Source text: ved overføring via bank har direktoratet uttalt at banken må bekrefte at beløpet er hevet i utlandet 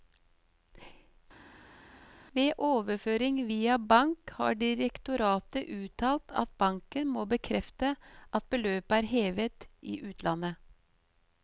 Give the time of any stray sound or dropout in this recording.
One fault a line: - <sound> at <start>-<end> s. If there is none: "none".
none